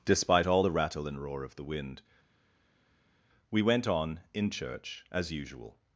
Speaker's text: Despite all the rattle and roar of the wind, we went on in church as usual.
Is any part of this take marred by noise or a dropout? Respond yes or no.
no